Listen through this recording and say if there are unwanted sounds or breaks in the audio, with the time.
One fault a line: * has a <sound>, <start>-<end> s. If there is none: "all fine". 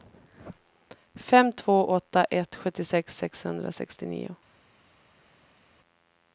all fine